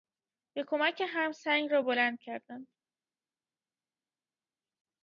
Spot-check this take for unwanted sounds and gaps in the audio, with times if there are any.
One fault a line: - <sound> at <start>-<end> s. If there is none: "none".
none